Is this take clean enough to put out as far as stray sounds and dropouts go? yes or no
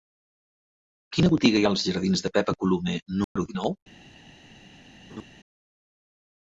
no